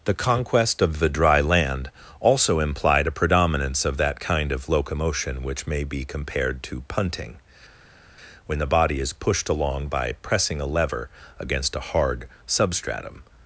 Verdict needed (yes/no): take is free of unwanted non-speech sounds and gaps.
yes